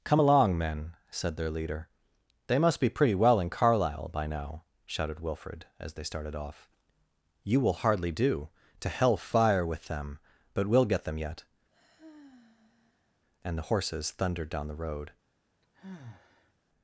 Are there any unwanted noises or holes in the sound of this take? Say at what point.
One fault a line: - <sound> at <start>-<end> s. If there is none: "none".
- sigh at 11.7-13.2 s
- sigh at 15.6-16.5 s